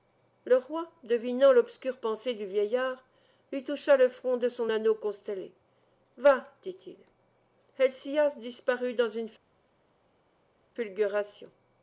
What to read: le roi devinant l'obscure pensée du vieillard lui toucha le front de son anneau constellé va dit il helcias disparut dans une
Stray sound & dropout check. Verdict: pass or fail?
pass